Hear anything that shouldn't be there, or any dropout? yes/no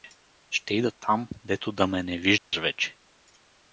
yes